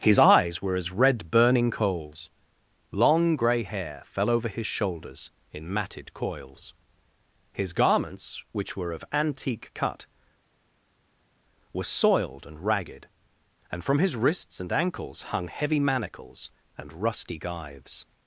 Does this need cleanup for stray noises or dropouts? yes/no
no